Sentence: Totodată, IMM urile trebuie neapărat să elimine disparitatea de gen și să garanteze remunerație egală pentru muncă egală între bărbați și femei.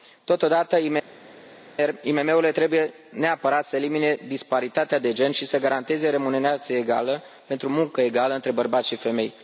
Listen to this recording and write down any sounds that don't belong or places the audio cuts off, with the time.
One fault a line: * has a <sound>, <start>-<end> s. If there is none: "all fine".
all fine